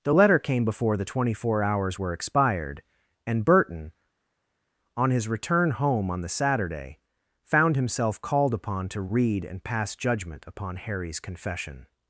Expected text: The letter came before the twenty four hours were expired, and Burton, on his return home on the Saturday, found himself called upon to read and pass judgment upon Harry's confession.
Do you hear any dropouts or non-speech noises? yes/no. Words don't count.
no